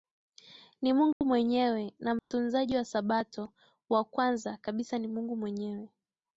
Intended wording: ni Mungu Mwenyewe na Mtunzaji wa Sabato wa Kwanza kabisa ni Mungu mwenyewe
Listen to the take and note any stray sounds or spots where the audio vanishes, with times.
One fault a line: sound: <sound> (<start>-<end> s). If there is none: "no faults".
sound: dropout (1.1-1.2 s)
sound: dropout (2.2-2.3 s)